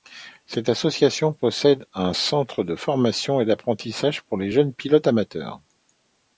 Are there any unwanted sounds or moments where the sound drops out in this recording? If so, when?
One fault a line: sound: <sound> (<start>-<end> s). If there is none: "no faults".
no faults